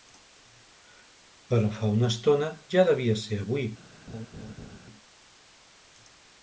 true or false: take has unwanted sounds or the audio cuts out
true